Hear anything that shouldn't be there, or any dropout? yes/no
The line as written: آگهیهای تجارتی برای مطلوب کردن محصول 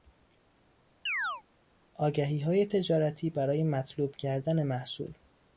yes